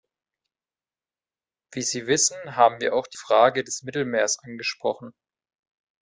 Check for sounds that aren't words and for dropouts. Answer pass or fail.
pass